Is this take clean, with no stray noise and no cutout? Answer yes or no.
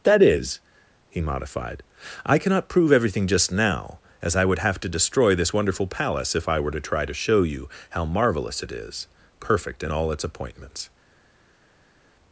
yes